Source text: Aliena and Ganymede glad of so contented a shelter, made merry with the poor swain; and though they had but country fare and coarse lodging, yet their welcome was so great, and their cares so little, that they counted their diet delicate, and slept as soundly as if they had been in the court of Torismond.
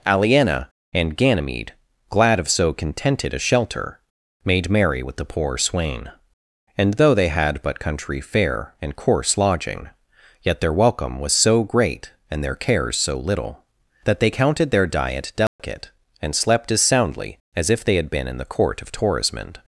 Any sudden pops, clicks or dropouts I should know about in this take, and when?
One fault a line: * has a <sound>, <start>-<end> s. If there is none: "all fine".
* has a dropout, 15.5-15.6 s